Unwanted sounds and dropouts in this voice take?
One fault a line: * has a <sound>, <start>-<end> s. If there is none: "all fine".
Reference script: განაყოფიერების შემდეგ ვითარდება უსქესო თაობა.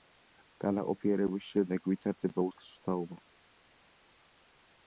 all fine